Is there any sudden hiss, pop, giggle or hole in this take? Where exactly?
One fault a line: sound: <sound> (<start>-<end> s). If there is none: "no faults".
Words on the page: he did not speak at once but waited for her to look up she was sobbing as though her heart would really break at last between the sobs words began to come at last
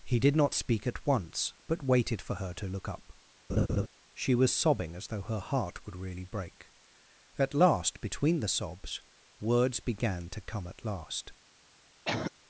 sound: laugh (3.5-3.9 s)
sound: cough (12.0-12.3 s)